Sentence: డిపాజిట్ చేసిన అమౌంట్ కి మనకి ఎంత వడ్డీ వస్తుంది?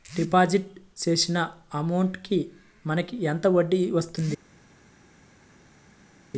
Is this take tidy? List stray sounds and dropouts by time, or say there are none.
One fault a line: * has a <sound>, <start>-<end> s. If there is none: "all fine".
all fine